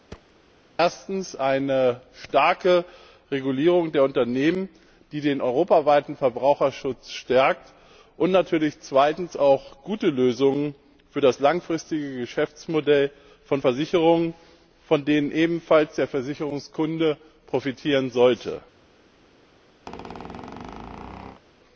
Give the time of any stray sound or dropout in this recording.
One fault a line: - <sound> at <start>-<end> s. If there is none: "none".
- thud at 0.1-0.3 s
- squeak at 19.9-21.4 s